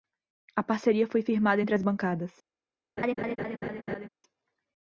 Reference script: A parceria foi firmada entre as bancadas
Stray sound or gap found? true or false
true